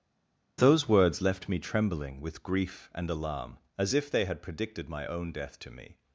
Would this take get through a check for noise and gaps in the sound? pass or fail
pass